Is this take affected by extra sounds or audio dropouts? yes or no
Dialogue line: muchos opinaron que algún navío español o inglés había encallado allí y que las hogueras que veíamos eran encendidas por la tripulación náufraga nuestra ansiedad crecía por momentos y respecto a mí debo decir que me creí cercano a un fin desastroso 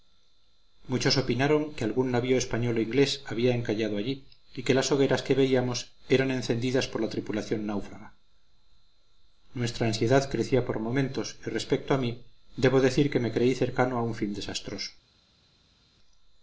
no